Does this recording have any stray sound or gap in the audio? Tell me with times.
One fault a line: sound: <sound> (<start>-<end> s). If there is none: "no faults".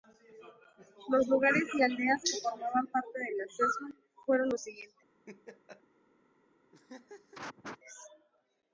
sound: laugh (5.3-5.8 s)
sound: laugh (6.7-7.8 s)